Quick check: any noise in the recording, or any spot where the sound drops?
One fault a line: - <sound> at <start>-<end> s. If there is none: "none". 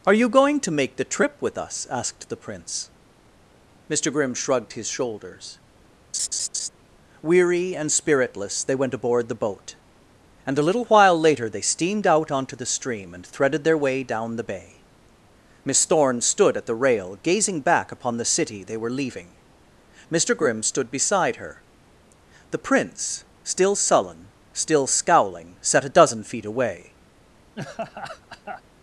- laugh at 6.1-6.7 s
- laugh at 27.6-28.6 s